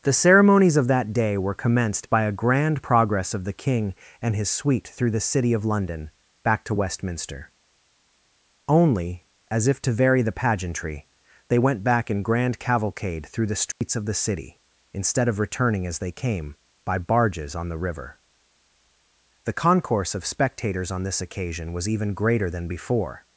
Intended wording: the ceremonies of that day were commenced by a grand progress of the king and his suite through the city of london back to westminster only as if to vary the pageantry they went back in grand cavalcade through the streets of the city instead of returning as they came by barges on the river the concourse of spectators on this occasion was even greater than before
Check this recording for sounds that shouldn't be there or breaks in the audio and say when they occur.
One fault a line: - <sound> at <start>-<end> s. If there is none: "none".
- dropout at 13.7-13.8 s